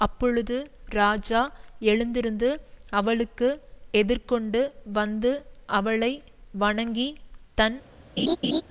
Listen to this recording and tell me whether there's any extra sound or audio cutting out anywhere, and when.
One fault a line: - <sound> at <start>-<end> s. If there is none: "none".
- laugh at 8.2-8.6 s